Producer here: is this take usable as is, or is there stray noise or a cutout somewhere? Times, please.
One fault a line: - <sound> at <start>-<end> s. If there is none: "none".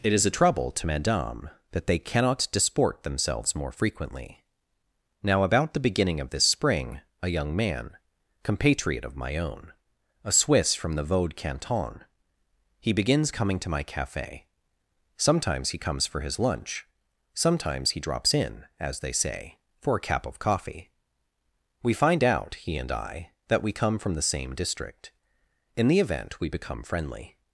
none